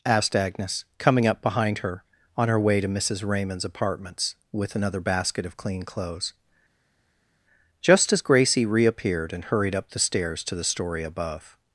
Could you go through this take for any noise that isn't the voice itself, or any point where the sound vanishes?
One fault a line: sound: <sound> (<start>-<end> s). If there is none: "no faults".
no faults